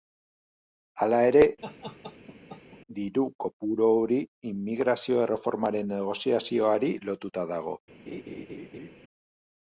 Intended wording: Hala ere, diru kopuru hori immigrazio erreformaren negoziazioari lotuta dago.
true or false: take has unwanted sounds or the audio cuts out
true